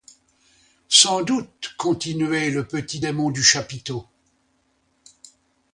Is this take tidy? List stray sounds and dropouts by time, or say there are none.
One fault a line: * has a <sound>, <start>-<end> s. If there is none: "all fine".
all fine